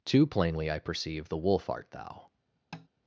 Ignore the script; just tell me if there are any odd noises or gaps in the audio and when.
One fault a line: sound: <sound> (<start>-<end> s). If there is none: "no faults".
sound: tap (2.7-2.9 s)